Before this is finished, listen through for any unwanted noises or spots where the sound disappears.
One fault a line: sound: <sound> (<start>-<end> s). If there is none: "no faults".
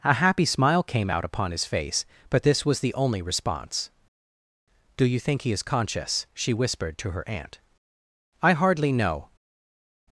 no faults